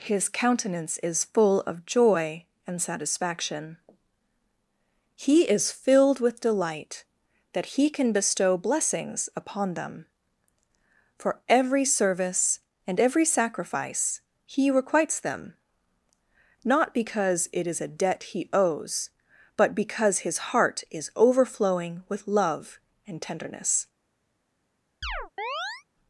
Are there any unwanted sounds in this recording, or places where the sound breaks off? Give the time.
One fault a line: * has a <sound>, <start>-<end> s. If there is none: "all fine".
* has a chirp, 25.0-25.8 s